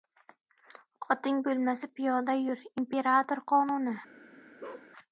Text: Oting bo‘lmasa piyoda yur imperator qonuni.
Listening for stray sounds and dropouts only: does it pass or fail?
fail